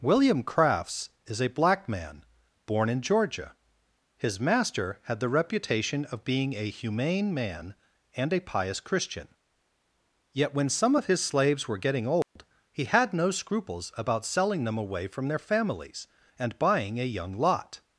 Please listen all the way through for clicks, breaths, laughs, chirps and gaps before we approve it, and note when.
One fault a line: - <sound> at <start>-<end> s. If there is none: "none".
- dropout at 12.2-12.4 s